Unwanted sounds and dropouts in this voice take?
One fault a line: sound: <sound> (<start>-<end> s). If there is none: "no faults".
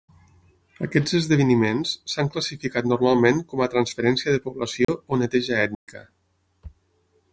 sound: dropout (4.8-4.9 s)
sound: dropout (5.7-5.9 s)